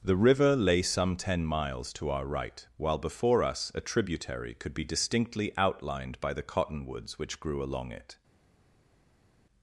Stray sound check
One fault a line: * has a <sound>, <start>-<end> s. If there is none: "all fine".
all fine